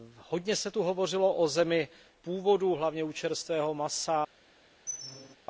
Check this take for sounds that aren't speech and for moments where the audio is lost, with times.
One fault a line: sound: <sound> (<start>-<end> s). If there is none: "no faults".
sound: squeak (4.9-5.4 s)